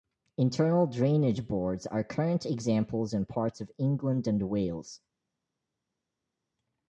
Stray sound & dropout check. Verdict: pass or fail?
pass